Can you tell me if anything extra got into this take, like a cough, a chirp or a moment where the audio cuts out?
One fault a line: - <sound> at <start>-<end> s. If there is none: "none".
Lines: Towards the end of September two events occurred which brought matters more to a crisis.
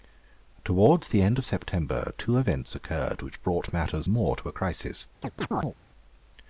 - chirp at 5.2-5.7 s